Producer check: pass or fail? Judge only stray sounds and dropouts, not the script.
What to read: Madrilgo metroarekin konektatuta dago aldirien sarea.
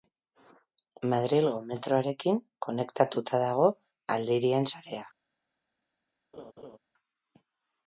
fail